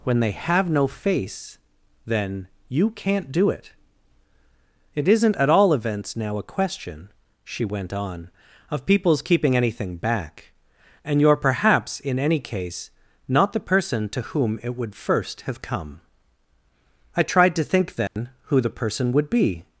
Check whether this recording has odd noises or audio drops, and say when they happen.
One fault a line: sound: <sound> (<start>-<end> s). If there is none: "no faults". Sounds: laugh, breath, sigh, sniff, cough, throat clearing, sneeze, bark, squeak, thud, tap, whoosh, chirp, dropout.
sound: dropout (18.1-18.2 s)